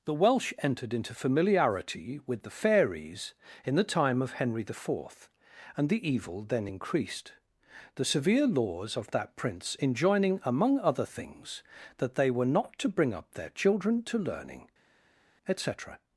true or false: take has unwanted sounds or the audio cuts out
false